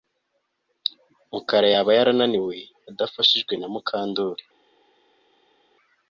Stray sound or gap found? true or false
false